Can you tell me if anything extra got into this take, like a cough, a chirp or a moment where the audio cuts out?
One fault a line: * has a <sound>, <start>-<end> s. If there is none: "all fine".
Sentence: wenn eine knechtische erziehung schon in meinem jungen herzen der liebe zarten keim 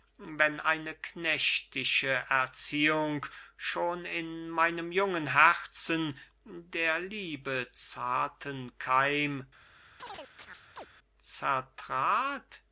* has a chirp, 10.0-10.9 s